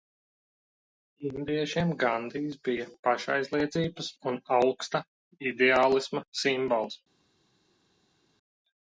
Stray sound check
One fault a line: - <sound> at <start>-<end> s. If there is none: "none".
none